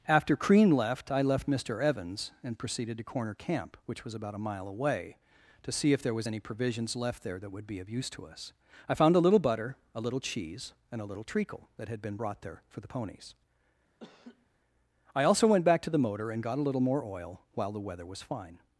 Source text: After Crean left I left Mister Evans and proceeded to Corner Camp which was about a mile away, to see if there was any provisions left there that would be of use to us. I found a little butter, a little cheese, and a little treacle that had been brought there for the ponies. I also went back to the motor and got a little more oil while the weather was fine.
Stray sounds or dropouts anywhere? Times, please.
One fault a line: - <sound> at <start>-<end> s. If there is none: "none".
- laugh at 14.0-14.5 s